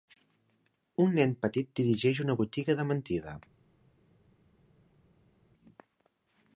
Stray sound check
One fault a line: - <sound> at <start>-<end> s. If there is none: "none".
none